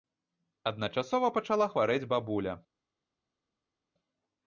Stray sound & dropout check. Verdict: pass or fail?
pass